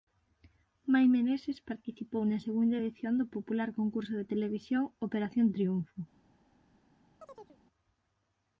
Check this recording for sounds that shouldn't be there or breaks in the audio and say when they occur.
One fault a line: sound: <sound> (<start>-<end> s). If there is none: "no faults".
sound: chirp (7.2-7.6 s)